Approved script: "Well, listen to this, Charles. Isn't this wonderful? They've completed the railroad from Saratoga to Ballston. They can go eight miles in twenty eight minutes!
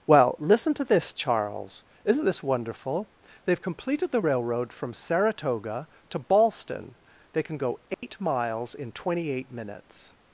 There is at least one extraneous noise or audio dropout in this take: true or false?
true